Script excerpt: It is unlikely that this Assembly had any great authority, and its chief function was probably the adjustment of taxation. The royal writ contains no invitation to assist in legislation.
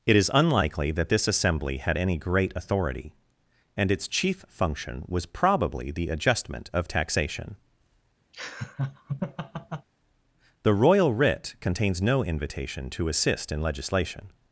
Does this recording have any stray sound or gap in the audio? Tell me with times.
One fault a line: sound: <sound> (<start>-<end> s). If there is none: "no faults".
sound: laugh (8.3-9.9 s)